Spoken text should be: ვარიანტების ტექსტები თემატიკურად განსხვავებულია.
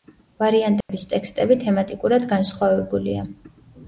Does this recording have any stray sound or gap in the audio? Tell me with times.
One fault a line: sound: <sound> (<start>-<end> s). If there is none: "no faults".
sound: dropout (0.8-0.9 s)